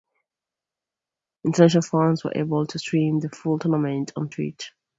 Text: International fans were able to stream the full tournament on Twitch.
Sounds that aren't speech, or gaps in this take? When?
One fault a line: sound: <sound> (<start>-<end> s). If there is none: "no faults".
no faults